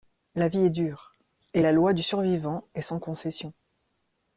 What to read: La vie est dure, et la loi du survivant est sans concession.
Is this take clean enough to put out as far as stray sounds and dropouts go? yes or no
yes